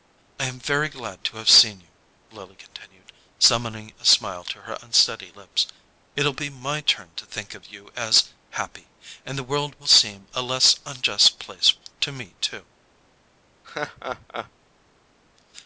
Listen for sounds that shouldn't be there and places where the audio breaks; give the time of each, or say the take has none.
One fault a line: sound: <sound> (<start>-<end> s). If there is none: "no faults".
sound: laugh (13.6-14.5 s)